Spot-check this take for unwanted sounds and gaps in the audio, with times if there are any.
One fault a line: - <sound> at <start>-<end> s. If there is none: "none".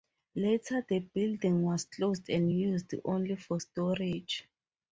none